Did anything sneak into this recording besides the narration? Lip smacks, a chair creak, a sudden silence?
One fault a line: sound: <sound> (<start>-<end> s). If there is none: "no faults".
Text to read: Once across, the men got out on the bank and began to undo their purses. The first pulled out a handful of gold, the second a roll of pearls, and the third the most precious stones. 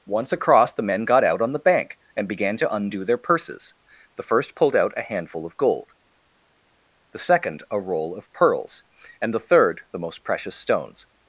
no faults